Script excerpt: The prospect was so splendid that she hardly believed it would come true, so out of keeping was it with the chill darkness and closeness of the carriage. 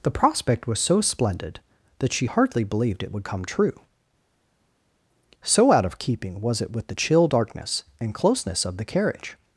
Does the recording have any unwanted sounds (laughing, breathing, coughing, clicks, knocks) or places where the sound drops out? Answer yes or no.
no